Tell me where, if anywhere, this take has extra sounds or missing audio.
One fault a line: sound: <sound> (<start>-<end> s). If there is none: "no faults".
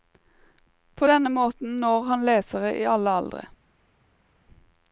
no faults